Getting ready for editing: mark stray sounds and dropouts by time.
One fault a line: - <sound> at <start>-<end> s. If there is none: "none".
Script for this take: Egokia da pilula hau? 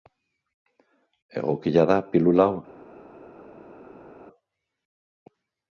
none